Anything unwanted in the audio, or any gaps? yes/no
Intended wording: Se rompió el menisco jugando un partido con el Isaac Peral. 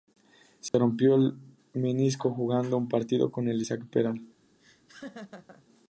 yes